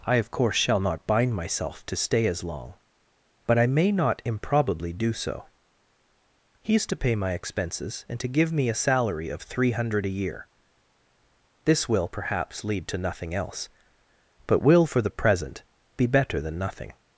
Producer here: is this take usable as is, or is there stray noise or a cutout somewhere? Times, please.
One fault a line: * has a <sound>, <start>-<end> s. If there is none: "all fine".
all fine